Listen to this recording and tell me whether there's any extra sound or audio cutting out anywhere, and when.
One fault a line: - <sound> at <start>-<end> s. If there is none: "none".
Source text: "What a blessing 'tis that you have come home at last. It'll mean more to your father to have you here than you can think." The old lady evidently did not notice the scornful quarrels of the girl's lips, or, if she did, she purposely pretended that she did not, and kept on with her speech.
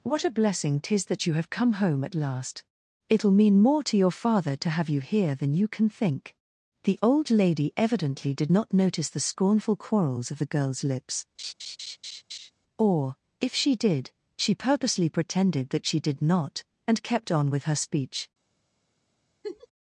- laugh at 11.4-12.5 s
- laugh at 19.4-19.7 s